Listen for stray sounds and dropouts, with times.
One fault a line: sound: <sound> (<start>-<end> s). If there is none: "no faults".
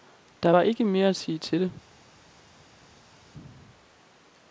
no faults